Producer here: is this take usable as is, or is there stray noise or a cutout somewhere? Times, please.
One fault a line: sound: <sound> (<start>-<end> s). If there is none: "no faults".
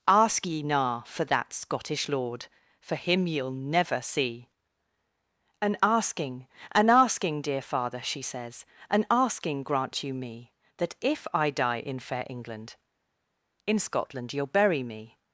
no faults